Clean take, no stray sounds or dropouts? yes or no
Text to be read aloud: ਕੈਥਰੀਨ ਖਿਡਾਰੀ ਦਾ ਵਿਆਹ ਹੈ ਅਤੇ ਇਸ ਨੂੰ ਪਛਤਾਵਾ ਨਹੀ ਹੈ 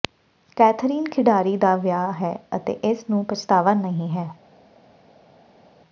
yes